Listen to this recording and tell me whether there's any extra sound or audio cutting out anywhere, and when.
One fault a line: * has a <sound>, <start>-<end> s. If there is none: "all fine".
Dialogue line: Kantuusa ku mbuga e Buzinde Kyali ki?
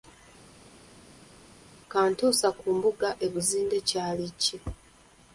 all fine